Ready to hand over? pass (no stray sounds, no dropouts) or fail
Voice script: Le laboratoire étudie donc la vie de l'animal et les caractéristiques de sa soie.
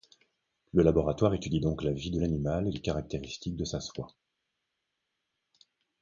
pass